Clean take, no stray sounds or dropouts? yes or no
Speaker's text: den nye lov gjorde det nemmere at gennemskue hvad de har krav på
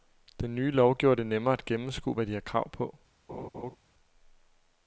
no